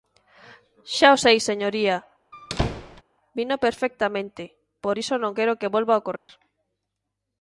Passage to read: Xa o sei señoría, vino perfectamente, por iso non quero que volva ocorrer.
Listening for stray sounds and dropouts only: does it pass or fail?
fail